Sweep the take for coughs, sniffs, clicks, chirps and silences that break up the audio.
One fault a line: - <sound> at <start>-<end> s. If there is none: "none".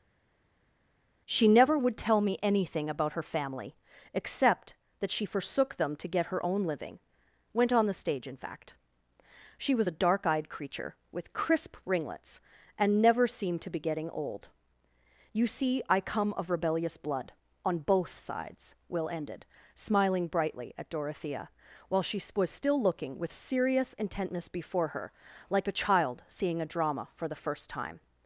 none